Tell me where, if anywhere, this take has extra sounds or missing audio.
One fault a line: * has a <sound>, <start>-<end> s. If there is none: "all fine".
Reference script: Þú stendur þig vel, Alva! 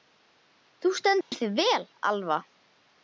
* has a dropout, 1.2-1.3 s